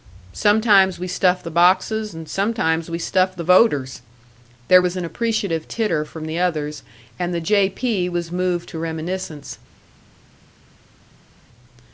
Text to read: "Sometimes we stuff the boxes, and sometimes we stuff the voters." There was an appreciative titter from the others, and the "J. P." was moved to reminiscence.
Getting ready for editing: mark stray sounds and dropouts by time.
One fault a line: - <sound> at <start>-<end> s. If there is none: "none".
none